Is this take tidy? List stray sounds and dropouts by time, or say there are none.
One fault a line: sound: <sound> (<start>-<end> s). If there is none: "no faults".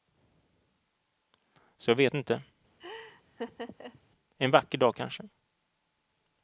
sound: laugh (2.8-4.0 s)